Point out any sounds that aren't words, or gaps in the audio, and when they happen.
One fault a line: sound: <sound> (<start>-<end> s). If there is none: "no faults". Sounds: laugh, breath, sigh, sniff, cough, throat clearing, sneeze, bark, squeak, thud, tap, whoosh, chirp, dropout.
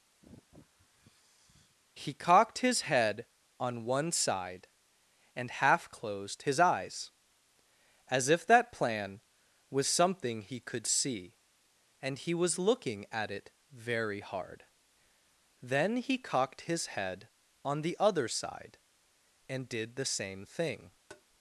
sound: sigh (0.2-1.8 s)
sound: tap (21.1-21.2 s)